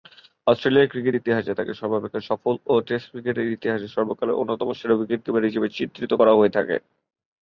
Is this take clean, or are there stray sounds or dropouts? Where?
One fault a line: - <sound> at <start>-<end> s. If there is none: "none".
none